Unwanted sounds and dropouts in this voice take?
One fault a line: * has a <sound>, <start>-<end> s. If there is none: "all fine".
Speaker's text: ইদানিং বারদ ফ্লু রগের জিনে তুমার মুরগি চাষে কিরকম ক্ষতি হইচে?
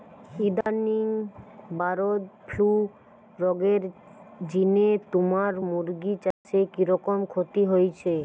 * has a dropout, 0.6-0.7 s
* has a dropout, 6.3-6.4 s